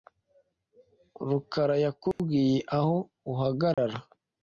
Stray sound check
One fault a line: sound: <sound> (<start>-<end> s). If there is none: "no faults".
sound: dropout (2.1-2.2 s)
sound: dropout (3.7-3.8 s)